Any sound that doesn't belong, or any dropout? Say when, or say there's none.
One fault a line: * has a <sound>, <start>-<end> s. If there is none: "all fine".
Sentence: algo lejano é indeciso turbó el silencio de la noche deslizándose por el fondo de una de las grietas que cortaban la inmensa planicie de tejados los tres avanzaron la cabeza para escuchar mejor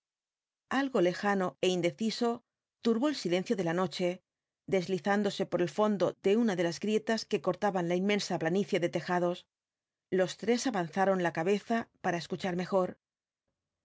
all fine